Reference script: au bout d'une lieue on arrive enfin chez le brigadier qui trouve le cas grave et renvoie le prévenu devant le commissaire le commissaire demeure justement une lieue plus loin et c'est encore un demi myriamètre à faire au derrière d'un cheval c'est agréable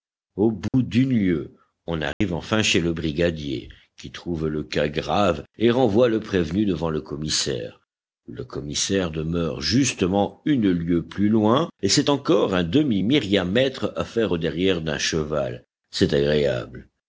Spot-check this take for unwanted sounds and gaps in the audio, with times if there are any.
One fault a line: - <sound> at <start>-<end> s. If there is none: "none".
- dropout at 0.7-0.7 s
- dropout at 2.1-2.2 s